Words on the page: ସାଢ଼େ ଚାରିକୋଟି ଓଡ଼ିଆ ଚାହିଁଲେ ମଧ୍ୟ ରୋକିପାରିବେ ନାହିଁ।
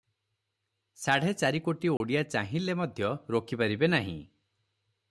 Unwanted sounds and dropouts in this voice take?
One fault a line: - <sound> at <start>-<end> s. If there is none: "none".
- dropout at 2.0-2.0 s